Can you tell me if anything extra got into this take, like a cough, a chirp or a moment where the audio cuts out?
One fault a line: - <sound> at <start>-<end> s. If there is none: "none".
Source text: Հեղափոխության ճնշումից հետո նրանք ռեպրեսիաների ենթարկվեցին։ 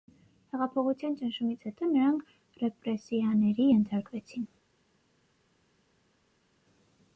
none